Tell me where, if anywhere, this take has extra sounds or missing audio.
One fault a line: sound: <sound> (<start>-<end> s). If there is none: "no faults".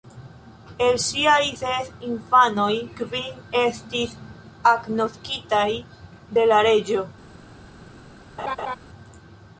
sound: laugh (8.4-8.8 s)